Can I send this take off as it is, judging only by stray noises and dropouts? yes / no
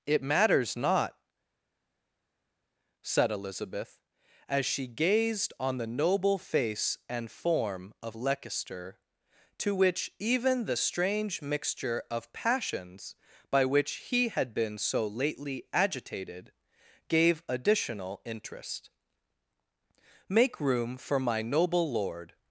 yes